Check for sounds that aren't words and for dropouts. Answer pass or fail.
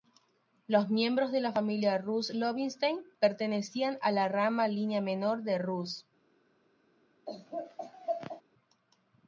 fail